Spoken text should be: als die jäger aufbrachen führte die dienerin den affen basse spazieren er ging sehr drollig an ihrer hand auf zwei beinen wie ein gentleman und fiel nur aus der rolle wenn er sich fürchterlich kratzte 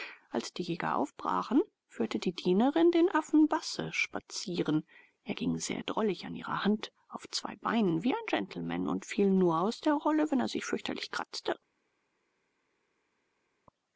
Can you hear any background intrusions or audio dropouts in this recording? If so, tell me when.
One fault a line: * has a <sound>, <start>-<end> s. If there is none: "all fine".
all fine